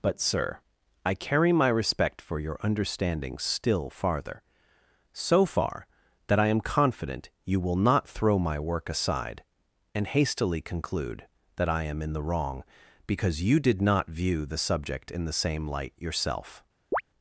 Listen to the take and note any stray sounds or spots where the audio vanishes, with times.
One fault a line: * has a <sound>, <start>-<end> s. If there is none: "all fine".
* has a chirp, 16.9-17.0 s